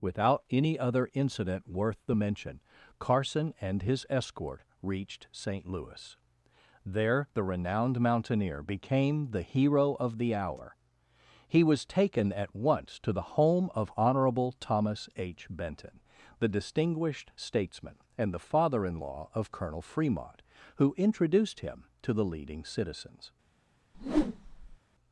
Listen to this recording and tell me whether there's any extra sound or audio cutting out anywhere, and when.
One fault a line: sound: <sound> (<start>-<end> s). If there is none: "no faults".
sound: whoosh (23.9-24.8 s)